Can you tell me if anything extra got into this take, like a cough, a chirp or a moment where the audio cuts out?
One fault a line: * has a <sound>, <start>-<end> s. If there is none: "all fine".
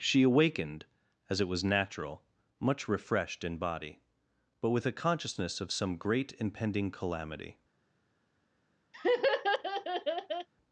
* has a laugh, 8.9-10.5 s